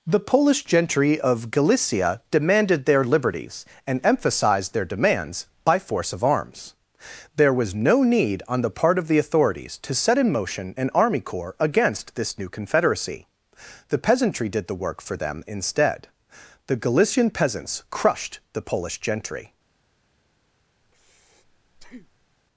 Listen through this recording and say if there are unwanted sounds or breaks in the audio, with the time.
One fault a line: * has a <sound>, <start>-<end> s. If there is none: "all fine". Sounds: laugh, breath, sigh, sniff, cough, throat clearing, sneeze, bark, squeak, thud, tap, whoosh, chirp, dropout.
* has a breath, 20.8-22.4 s